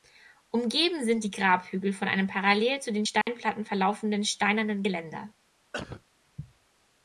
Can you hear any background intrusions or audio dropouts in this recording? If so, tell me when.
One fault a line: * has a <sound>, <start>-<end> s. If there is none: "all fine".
* has a dropout, 3.2-3.3 s
* has a cough, 5.7-6.0 s